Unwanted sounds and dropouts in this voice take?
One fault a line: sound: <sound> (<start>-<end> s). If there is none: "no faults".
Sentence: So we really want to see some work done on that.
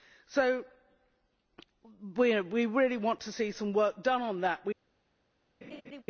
sound: laugh (5.6-6.0 s)